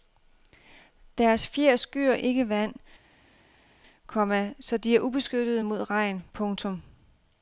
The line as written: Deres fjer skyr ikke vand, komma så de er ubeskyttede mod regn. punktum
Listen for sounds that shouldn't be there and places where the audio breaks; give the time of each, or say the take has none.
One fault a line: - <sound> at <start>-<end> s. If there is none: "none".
none